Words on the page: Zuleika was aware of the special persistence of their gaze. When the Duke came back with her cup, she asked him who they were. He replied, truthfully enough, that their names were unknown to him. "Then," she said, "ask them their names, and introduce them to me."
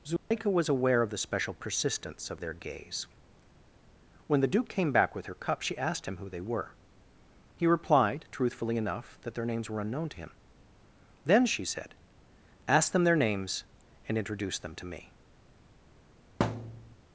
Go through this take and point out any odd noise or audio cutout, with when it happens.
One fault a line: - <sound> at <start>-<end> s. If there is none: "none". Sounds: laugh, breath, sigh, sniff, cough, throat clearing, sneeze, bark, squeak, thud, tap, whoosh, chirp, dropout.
- dropout at 0.2-0.3 s
- thud at 16.4-17.0 s